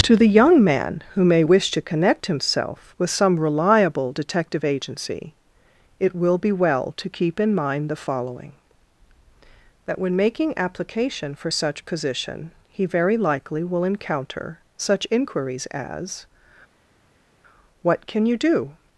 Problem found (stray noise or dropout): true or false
false